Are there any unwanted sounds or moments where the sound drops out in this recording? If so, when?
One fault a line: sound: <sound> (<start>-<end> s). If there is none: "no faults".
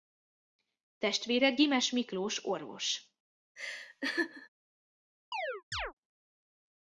sound: laugh (3.6-4.5 s)
sound: chirp (5.3-5.9 s)